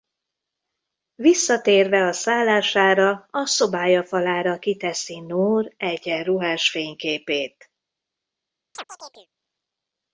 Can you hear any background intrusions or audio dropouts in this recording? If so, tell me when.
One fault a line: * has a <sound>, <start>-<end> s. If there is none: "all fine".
* has a chirp, 8.7-9.3 s